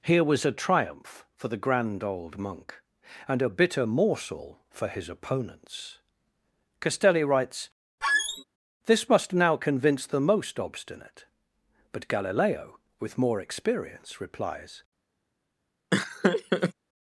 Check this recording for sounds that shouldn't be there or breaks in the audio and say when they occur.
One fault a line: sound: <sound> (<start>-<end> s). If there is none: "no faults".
sound: squeak (8.0-8.4 s)
sound: laugh (15.9-16.7 s)